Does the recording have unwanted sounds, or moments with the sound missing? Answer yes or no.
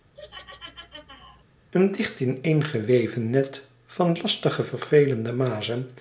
yes